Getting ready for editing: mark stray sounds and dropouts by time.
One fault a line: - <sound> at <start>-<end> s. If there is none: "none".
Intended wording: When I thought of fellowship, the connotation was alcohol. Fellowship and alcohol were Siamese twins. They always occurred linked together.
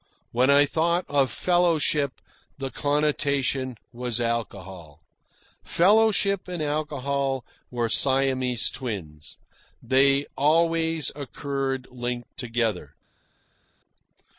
none